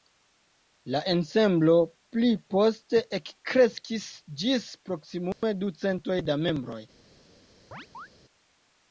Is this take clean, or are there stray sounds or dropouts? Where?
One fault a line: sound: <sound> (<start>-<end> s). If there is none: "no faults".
sound: dropout (5.3-5.4 s)
sound: chirp (7.7-8.1 s)